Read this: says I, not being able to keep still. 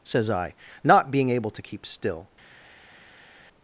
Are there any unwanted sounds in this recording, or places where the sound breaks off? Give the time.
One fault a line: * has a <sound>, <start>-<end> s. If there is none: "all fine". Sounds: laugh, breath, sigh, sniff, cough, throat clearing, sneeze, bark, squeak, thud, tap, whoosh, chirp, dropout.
all fine